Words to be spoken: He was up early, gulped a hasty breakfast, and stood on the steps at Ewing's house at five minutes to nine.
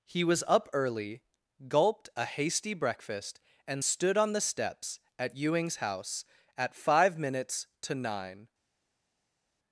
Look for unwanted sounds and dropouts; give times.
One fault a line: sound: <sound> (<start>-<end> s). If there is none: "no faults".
no faults